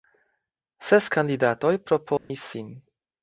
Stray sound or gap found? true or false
true